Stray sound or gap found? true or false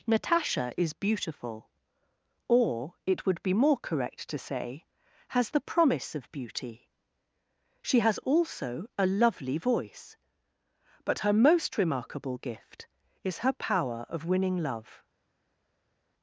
false